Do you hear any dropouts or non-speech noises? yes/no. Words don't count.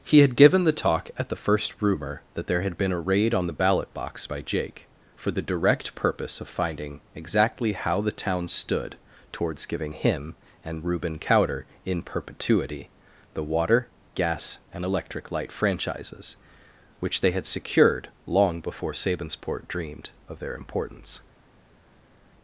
no